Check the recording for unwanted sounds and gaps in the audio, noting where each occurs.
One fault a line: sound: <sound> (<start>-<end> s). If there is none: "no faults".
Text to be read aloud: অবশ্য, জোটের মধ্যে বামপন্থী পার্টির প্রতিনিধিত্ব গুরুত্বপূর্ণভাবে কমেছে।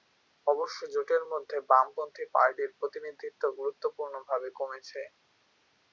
no faults